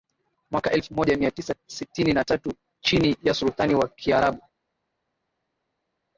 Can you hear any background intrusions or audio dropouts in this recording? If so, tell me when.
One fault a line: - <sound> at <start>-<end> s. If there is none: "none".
none